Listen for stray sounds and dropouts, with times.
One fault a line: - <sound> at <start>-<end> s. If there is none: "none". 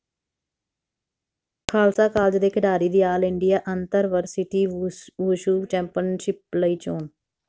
none